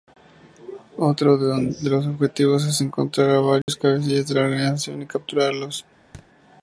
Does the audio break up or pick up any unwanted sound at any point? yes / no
yes